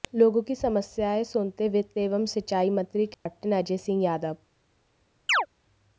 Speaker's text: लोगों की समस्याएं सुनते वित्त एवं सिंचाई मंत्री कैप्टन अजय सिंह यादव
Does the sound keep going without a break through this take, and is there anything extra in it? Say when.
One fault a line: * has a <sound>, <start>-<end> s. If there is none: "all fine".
* has a dropout, 3.1-3.3 s
* has a chirp, 5.3-5.5 s